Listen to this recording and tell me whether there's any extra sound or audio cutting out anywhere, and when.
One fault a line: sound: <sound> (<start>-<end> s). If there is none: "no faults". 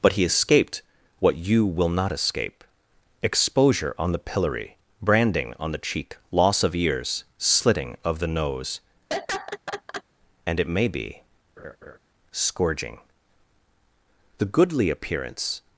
sound: laugh (9.1-10.0 s)
sound: laugh (11.6-12.0 s)